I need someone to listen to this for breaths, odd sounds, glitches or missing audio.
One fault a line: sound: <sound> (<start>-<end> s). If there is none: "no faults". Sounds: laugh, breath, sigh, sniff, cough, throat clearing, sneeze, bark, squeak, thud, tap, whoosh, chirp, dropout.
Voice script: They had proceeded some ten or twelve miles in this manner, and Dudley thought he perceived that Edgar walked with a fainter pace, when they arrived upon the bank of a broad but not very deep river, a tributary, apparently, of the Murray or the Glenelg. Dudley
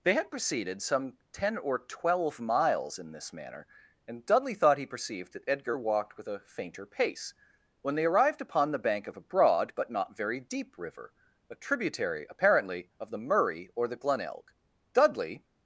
no faults